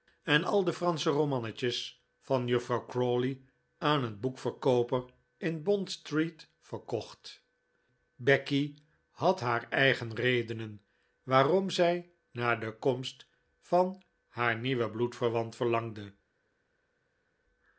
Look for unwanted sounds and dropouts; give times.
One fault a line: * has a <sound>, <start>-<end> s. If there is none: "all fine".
all fine